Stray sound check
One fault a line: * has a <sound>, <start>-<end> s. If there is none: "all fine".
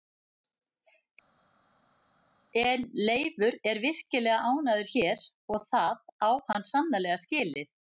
all fine